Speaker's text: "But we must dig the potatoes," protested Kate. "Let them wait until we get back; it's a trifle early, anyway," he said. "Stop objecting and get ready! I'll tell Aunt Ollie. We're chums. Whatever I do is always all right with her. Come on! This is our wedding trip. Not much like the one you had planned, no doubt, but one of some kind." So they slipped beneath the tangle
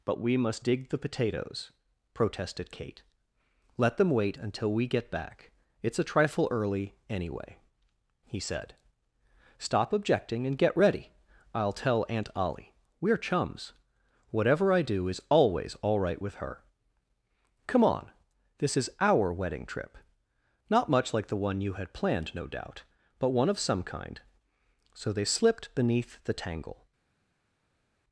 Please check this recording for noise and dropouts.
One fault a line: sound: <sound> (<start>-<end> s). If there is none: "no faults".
no faults